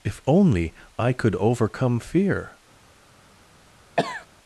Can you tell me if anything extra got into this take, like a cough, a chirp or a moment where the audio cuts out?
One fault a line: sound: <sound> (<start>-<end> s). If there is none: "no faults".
sound: cough (4.0-4.3 s)